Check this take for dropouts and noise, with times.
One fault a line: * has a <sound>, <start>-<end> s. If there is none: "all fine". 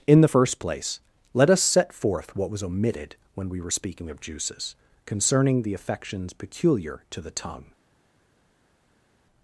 all fine